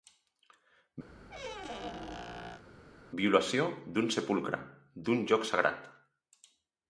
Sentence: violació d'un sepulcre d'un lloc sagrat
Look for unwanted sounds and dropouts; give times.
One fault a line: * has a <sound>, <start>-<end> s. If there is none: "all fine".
* has a squeak, 1.1-2.6 s